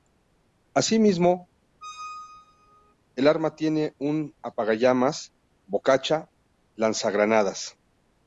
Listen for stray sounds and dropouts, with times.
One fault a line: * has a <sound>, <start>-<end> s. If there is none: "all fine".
* has a squeak, 1.8-2.9 s